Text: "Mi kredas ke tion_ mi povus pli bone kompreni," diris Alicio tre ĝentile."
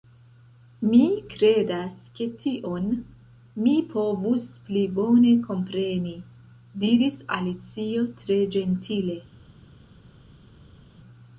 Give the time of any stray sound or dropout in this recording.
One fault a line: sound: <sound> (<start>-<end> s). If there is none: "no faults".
no faults